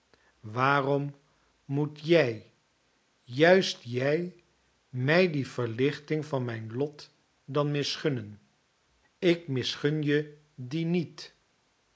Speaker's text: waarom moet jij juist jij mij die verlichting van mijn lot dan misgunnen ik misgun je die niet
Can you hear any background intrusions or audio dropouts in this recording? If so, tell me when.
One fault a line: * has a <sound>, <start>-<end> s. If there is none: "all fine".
all fine